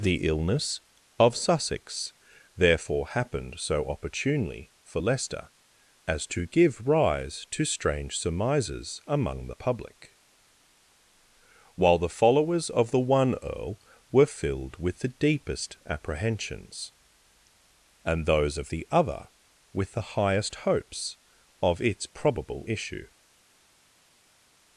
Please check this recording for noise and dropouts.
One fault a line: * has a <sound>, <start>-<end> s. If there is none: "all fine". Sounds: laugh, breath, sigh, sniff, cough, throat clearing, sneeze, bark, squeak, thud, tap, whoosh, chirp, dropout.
all fine